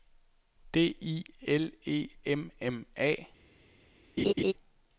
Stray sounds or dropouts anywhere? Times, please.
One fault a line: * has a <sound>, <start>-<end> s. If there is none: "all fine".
* has a laugh, 4.2-4.5 s